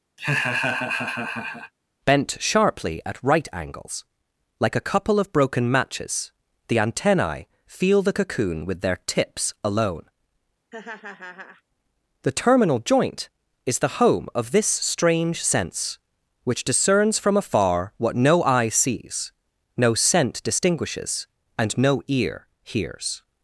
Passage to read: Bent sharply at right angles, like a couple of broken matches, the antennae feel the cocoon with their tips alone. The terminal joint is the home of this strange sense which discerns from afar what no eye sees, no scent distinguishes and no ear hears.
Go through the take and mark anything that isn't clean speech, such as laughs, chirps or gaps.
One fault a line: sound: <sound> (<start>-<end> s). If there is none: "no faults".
sound: laugh (0.2-1.7 s)
sound: laugh (10.7-11.6 s)